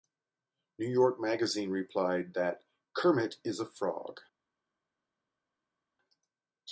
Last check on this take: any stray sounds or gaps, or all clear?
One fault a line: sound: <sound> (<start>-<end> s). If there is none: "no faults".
no faults